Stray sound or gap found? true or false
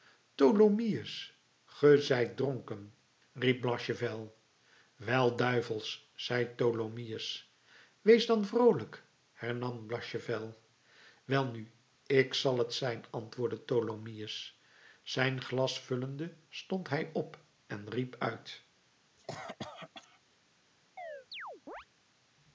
true